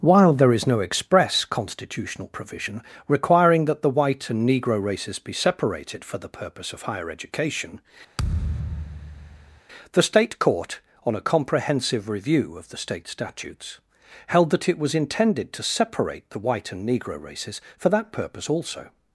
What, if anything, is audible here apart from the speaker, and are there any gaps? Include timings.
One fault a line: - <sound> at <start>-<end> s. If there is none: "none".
- thud at 8.2-9.6 s